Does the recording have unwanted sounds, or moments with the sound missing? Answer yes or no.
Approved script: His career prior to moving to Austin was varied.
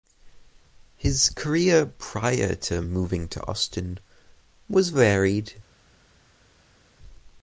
no